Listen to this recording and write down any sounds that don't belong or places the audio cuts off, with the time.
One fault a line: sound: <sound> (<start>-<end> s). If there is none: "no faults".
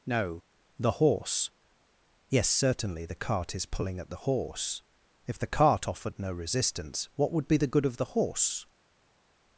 no faults